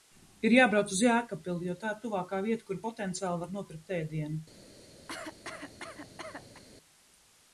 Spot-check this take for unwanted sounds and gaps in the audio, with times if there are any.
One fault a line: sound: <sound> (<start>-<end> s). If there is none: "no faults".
sound: cough (5.1-6.6 s)